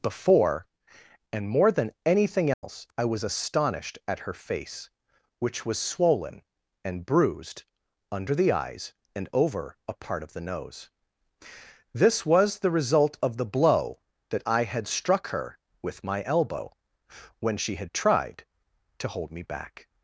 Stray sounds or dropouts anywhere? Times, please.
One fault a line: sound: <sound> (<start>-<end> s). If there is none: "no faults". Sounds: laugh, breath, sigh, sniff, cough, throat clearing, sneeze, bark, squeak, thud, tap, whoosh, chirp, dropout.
sound: dropout (2.5-2.6 s)